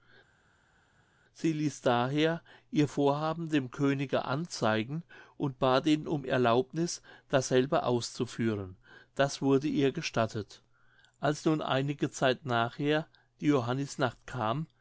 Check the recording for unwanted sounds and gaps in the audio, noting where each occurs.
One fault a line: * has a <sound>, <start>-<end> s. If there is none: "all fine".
all fine